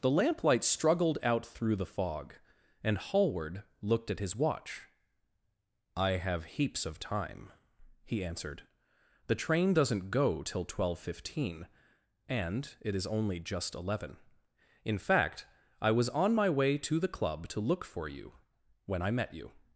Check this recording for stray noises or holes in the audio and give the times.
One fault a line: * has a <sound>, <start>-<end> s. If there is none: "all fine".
all fine